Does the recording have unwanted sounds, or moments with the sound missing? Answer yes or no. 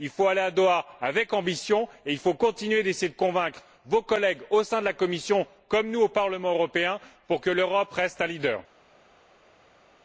no